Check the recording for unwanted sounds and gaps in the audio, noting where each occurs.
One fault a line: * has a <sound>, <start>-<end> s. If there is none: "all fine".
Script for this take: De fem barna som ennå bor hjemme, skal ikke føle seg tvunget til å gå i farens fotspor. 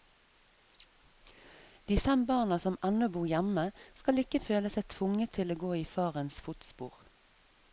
all fine